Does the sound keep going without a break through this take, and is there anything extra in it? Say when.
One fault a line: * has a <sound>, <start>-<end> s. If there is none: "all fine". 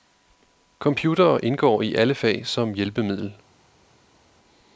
all fine